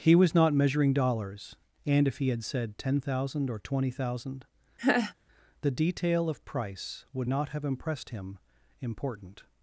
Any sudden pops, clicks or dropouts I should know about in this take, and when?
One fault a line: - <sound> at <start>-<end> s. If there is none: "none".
- laugh at 4.8-5.1 s